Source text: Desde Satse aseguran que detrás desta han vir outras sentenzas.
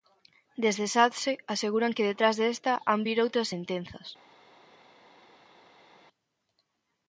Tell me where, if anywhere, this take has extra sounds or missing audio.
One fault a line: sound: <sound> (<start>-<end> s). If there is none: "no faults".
no faults